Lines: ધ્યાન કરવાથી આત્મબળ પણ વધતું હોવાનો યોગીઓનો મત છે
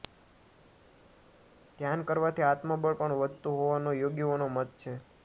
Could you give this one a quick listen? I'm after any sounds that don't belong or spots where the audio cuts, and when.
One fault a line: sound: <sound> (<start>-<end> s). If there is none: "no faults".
no faults